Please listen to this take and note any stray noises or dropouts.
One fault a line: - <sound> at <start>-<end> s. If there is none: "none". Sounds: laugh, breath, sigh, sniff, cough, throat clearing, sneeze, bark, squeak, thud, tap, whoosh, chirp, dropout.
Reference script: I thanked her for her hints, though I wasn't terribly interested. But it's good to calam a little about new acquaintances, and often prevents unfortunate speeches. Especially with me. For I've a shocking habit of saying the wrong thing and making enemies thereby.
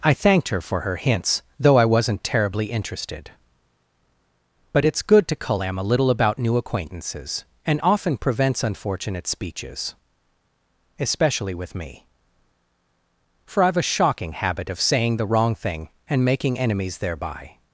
none